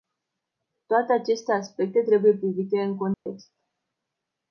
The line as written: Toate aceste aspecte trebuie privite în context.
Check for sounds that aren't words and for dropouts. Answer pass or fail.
fail